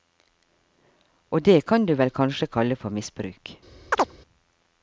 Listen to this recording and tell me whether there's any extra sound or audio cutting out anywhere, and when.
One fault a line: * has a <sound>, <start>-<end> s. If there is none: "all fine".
* has a chirp, 3.9-4.1 s